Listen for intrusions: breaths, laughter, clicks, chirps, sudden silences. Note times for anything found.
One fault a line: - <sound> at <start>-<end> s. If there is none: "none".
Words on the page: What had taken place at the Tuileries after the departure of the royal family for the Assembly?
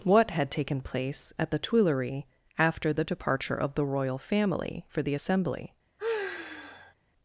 - sigh at 6.0-6.9 s